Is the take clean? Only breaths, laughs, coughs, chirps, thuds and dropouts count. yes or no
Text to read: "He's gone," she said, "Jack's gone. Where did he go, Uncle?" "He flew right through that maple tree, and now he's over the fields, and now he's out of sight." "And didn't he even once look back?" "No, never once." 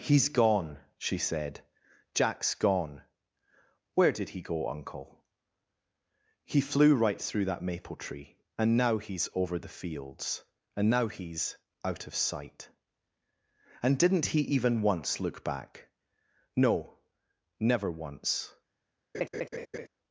no